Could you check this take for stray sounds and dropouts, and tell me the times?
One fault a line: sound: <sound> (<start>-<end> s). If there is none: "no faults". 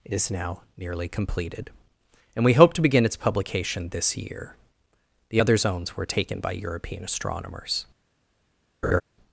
sound: laugh (8.8-9.0 s)